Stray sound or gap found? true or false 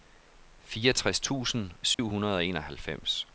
true